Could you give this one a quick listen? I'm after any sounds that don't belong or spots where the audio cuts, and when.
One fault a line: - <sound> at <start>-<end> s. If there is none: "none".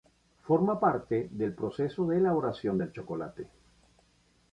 none